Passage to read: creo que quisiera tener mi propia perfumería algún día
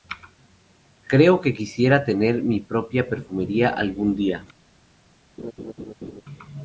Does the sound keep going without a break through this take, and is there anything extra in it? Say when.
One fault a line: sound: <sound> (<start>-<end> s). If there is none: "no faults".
sound: laugh (5.4-6.2 s)